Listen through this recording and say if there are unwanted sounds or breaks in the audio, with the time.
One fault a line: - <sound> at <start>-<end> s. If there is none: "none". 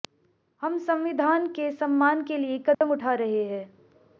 - dropout at 2.7-2.8 s